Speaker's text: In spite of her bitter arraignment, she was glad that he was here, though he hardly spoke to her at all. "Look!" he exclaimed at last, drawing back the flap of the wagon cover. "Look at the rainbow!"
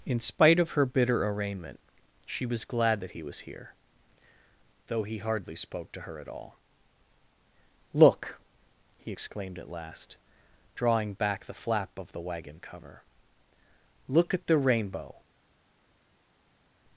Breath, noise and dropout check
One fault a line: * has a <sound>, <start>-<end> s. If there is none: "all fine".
all fine